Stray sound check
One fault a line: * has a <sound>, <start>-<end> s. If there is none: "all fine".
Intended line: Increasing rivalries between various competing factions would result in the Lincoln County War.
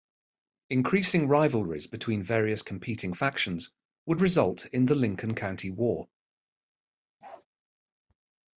* has a bark, 7.2-7.5 s